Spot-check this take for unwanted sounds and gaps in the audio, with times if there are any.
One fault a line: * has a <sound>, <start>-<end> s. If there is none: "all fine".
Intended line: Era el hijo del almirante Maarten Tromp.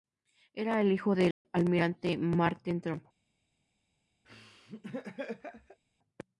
* has a dropout, 1.3-1.5 s
* has a laugh, 4.2-5.8 s